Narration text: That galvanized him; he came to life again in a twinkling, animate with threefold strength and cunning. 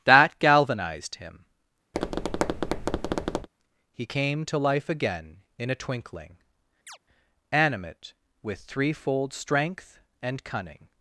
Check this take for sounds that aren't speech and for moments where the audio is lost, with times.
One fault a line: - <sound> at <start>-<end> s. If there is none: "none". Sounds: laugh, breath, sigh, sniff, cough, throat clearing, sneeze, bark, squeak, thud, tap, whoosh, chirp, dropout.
- tap at 1.9-3.5 s
- chirp at 6.9-7.0 s